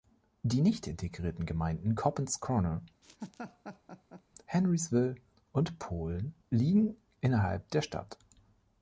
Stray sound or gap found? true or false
true